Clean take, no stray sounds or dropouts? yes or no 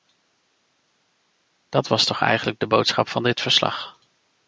yes